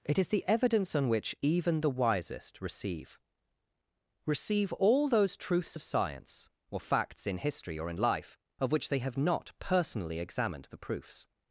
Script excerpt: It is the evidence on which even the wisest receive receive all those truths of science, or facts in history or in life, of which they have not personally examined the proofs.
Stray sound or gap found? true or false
false